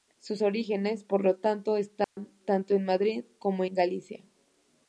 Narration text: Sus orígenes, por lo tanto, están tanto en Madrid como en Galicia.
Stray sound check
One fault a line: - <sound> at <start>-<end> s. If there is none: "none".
- dropout at 2.0-2.2 s